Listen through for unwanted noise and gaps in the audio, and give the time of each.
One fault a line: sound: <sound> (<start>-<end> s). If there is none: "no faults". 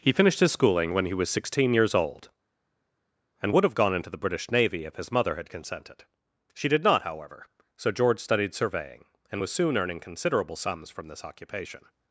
no faults